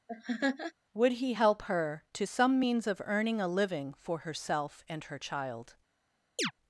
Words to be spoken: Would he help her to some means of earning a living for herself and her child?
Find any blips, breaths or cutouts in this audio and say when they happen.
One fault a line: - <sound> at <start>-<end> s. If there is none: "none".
- laugh at 0.1-0.7 s
- chirp at 6.4-6.5 s